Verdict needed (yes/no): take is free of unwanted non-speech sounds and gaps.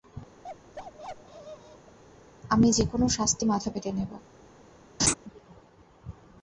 no